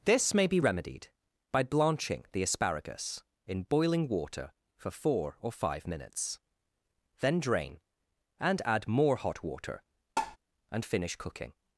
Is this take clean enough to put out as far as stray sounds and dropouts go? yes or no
no